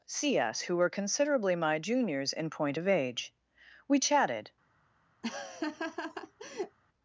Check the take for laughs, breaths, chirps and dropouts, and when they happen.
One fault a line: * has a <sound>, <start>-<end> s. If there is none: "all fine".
* has a laugh, 5.2-6.8 s